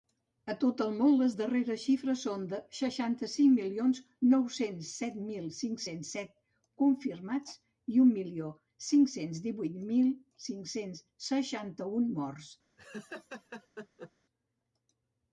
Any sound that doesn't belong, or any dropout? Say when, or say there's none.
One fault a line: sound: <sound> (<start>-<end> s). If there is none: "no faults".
sound: laugh (12.8-14.1 s)